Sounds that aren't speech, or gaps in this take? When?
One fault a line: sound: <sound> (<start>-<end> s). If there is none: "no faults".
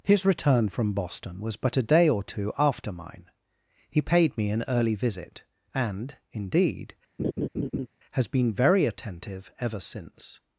sound: laugh (7.2-7.9 s)